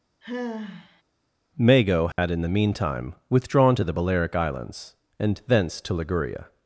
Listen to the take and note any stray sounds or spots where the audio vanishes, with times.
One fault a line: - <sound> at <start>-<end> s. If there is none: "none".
- sigh at 0.2-1.0 s
- dropout at 2.1-2.2 s